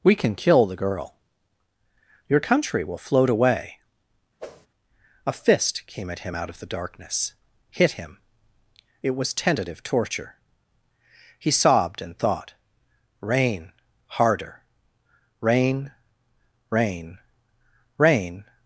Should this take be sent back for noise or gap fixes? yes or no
yes